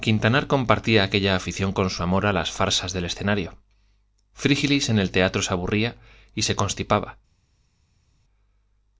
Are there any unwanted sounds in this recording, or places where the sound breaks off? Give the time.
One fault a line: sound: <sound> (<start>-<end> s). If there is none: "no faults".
no faults